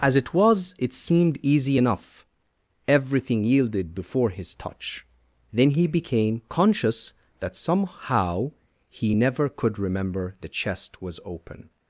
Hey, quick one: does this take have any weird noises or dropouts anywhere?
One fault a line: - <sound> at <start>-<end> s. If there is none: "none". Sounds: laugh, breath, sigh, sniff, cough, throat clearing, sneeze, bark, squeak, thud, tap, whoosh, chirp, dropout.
none